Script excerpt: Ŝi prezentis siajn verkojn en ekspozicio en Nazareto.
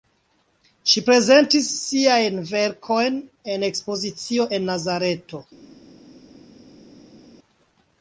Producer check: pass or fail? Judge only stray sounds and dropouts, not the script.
pass